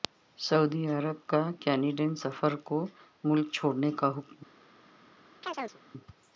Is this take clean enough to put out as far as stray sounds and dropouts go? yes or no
no